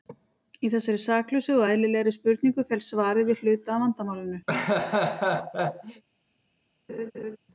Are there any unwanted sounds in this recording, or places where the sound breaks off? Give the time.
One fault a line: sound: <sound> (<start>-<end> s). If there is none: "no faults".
sound: laugh (4.5-6.0 s)
sound: laugh (6.9-7.4 s)